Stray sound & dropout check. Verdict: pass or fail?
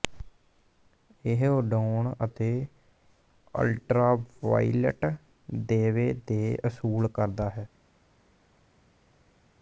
pass